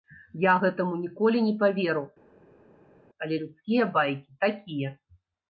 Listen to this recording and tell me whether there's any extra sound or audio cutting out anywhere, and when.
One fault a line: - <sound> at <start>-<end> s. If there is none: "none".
none